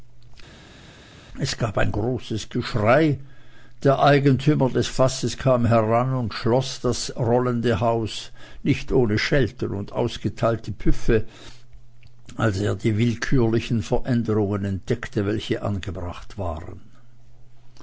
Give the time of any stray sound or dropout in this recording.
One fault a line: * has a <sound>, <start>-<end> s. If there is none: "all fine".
all fine